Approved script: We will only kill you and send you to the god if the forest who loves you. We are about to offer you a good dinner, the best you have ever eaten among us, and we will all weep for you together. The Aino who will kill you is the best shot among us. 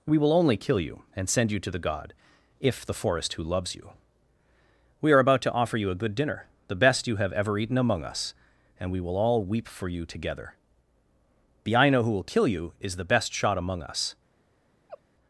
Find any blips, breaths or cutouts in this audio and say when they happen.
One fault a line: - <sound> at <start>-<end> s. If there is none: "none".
- laugh at 14.9-15.0 s